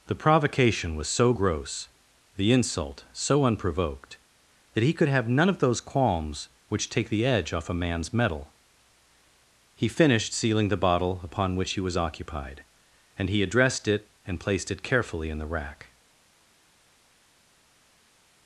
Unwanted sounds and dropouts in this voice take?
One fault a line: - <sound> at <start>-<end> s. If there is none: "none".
none